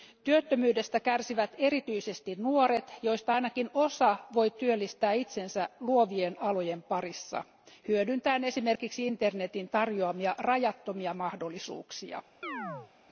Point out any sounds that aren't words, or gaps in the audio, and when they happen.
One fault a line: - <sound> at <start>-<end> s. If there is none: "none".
- chirp at 12.4-12.9 s